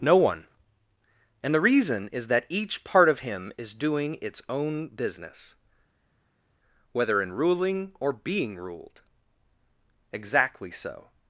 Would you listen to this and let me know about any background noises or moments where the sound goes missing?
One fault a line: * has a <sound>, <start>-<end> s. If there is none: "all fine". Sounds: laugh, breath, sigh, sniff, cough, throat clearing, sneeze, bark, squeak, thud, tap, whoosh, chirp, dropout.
all fine